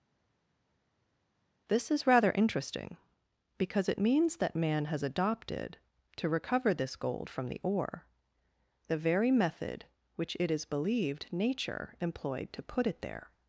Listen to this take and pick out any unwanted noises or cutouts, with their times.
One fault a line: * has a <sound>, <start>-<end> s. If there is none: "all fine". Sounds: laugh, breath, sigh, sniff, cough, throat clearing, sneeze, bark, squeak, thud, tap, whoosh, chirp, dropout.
all fine